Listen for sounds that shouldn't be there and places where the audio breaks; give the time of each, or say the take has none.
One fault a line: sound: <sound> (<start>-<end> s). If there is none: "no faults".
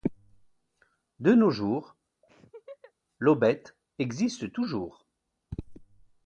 sound: laugh (2.2-2.9 s)